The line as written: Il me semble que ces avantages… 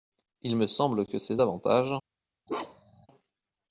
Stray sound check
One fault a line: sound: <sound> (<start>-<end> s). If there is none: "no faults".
sound: bark (2.5-3.1 s)